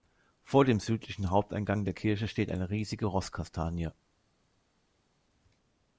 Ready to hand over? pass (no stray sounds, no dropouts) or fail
pass